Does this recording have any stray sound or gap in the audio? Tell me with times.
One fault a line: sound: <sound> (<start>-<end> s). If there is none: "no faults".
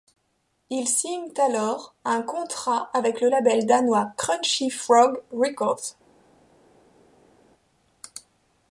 no faults